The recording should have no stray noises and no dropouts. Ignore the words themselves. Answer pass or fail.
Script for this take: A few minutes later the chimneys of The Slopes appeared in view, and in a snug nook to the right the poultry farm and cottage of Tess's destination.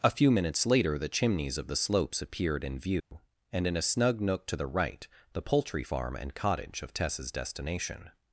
fail